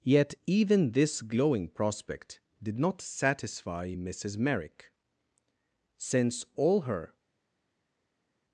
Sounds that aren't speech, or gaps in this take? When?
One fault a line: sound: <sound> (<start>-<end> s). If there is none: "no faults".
no faults